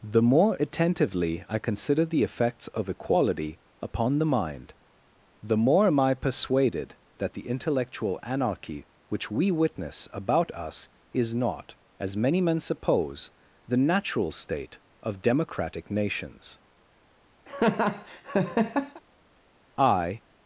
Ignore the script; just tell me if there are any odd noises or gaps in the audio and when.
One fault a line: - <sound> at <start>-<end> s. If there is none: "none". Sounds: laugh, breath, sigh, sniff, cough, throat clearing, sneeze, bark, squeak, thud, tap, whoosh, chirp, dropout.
- laugh at 17.5-19.0 s